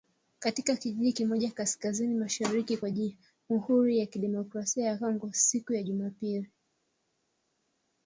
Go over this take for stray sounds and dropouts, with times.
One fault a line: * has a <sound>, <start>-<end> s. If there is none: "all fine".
all fine